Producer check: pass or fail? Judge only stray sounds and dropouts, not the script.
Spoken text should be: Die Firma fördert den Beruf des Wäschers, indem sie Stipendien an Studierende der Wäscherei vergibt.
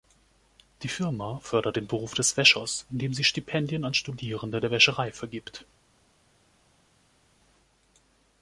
pass